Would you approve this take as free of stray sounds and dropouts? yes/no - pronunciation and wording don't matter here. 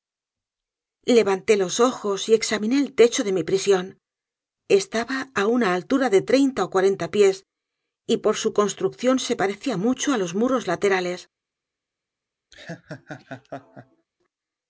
no